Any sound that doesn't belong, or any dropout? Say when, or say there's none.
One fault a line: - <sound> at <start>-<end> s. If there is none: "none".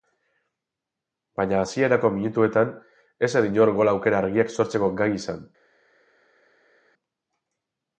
none